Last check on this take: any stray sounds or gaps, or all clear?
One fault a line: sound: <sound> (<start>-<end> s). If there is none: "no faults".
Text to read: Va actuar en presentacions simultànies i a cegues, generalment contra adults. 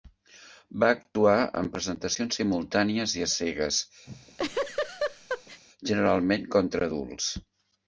sound: laugh (4.1-5.6 s)